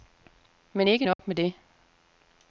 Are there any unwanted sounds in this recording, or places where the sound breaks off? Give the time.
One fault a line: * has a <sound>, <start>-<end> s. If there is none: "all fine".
* has a dropout, 1.1-1.2 s